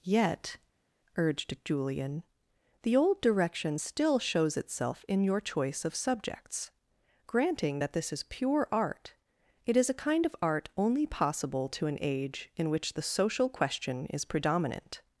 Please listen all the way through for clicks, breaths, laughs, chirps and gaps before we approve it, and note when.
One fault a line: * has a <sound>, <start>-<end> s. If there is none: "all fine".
all fine